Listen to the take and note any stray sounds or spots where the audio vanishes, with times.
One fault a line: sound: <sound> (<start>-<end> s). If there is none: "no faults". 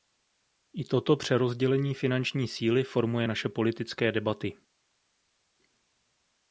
no faults